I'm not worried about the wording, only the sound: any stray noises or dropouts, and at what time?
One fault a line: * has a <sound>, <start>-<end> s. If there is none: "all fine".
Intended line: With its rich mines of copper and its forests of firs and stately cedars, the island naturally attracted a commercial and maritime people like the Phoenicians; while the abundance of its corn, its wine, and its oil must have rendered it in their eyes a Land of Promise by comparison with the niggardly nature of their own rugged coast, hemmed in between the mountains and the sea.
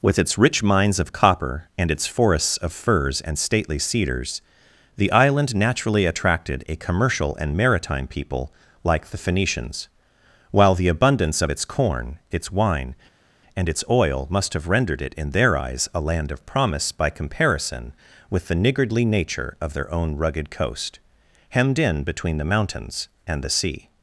all fine